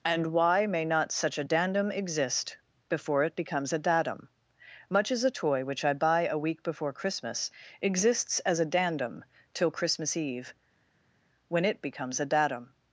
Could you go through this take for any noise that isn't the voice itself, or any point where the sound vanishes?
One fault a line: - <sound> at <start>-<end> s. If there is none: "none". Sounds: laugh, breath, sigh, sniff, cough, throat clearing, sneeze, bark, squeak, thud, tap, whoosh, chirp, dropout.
none